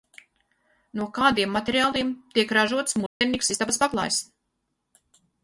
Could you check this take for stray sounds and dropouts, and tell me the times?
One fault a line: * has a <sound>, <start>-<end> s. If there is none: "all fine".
* has a dropout, 3.1-3.2 s